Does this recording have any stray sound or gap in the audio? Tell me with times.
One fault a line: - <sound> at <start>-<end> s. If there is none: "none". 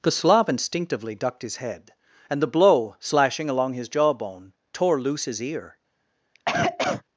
- cough at 6.3-7.0 s